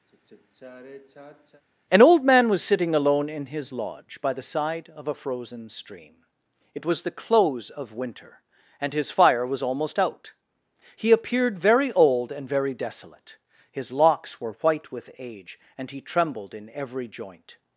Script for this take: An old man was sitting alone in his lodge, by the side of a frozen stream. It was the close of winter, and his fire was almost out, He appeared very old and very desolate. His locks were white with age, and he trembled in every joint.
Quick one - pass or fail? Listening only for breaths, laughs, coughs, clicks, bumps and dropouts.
fail